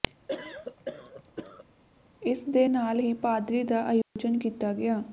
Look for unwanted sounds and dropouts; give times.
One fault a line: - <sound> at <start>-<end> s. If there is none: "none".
- cough at 0.3-1.6 s
- dropout at 4.0-4.2 s